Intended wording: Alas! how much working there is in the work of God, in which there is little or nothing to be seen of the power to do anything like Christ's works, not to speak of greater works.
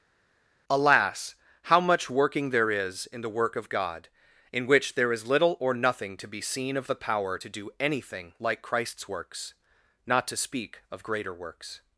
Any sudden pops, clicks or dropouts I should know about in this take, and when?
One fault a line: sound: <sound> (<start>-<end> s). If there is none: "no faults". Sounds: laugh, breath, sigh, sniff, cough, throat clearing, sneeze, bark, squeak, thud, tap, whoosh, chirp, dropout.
no faults